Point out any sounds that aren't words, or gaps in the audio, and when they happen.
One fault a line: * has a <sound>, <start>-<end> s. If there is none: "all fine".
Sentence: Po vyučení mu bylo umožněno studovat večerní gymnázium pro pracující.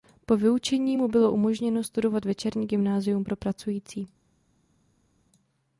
all fine